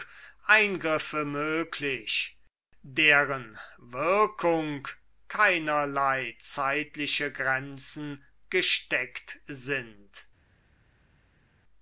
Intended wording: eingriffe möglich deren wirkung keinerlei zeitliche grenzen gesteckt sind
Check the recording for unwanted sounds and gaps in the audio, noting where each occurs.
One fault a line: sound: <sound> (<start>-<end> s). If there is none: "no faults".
no faults